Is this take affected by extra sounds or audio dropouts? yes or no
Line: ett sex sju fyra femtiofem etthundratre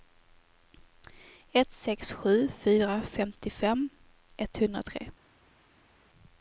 no